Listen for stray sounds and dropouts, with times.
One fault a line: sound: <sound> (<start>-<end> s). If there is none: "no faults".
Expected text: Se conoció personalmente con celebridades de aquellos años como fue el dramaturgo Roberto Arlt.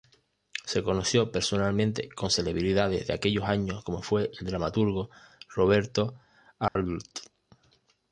sound: dropout (6.7-6.8 s)